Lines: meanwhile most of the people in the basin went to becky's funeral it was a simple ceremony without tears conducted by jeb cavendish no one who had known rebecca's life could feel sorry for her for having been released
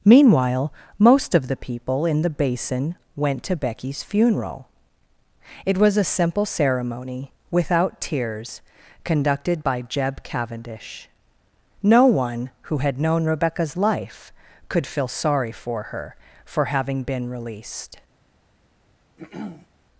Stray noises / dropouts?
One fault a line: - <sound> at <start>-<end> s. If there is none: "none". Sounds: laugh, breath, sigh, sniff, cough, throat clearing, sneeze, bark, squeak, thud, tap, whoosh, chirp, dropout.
- throat clearing at 19.2-19.7 s